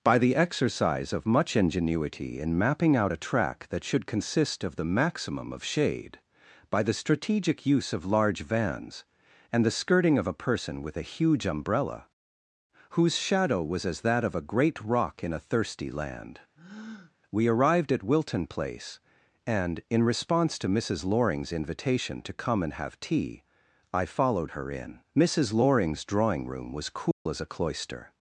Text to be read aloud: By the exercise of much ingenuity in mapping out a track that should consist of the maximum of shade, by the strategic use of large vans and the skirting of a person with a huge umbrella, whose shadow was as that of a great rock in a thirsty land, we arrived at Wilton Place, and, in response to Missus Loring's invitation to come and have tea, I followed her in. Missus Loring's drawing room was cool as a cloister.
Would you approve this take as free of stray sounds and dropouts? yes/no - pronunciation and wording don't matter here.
no